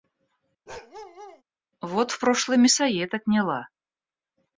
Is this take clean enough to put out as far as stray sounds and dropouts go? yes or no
no